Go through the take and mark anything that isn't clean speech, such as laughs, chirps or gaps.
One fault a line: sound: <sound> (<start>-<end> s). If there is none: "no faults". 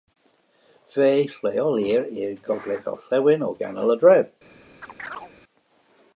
sound: chirp (4.8-5.3 s)